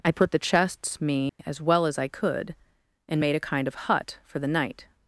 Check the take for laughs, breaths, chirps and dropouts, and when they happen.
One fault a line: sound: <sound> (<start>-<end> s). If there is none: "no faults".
sound: dropout (1.3-1.4 s)